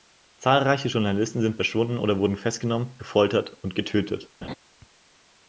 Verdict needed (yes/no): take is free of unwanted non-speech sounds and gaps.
no